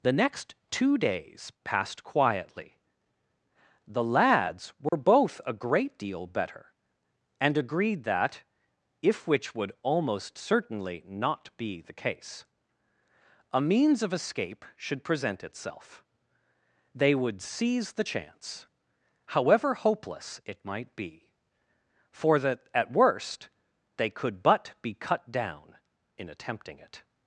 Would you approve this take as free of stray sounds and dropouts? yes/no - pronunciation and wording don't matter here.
no